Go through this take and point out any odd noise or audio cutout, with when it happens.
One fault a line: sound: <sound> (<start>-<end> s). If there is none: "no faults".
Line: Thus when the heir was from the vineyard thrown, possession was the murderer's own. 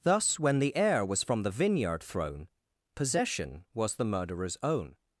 no faults